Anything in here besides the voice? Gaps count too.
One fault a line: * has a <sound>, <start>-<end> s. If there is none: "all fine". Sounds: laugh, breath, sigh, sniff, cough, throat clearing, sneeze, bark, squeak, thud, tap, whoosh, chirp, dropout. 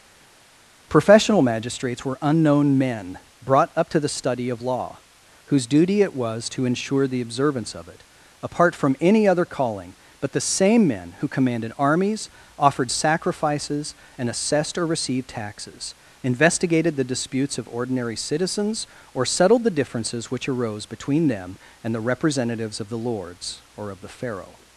all fine